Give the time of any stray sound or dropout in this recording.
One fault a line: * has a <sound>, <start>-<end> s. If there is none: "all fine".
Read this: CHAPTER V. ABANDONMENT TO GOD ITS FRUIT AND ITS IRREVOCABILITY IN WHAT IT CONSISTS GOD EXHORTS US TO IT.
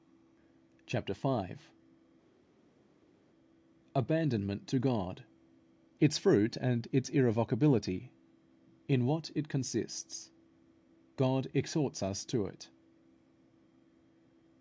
all fine